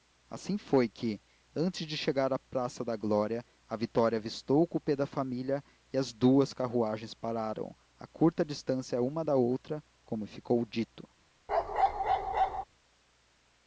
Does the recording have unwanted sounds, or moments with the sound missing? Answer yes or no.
yes